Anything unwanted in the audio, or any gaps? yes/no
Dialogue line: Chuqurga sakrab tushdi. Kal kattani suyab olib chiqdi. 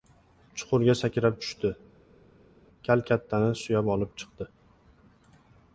no